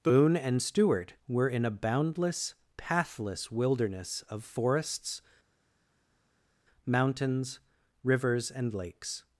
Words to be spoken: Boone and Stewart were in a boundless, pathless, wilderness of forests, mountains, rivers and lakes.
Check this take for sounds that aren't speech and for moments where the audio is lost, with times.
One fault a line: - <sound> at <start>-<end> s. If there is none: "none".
none